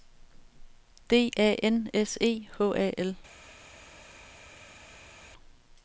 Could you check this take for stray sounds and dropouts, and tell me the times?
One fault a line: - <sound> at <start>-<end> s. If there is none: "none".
none